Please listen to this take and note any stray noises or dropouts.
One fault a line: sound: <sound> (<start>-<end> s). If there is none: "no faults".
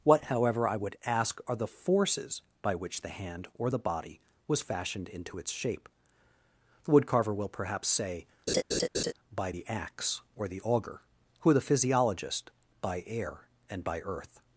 sound: laugh (8.5-9.1 s)